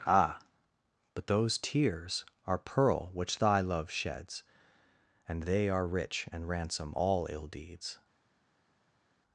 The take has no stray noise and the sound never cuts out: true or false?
true